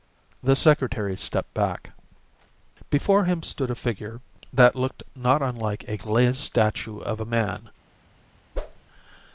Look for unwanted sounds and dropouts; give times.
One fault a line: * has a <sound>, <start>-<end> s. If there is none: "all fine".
* has a whoosh, 8.5-8.8 s